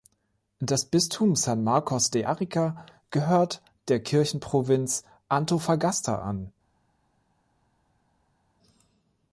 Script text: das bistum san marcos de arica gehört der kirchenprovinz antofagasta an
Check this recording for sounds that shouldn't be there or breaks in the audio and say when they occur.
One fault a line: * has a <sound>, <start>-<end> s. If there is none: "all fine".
all fine